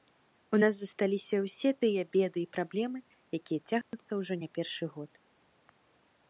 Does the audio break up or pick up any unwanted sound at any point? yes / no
yes